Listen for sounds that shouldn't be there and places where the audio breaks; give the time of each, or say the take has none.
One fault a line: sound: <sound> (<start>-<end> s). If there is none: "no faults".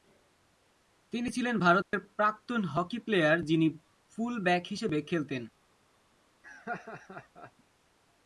sound: dropout (1.8-1.9 s)
sound: laugh (6.4-7.5 s)